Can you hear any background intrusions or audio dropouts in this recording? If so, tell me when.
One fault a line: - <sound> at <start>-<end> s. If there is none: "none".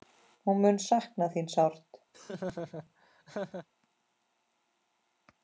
- laugh at 2.1-3.7 s